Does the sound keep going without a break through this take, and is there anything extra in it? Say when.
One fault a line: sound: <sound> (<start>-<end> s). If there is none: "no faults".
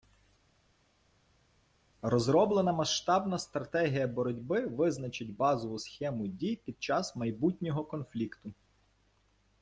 no faults